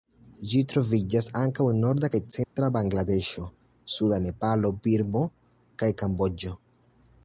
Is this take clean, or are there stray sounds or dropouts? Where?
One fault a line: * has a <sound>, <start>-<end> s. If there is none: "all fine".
* has a dropout, 2.4-2.6 s